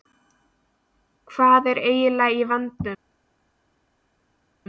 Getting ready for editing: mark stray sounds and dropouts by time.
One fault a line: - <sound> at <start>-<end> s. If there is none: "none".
none